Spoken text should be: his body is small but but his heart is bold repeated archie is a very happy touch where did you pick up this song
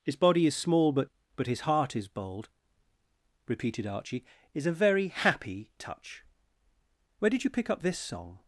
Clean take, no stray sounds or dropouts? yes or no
yes